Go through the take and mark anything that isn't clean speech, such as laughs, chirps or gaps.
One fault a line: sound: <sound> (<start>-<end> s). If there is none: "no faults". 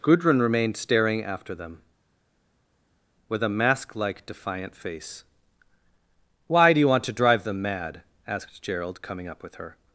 no faults